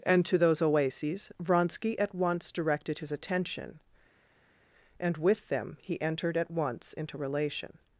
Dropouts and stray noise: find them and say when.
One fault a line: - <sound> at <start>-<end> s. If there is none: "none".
none